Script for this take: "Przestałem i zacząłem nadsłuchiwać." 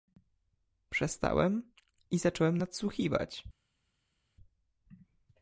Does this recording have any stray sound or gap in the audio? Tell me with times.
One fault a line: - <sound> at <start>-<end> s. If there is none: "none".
none